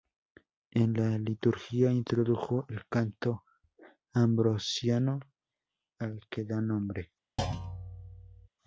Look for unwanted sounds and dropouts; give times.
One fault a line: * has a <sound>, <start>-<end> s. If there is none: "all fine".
* has a thud, 7.4-8.5 s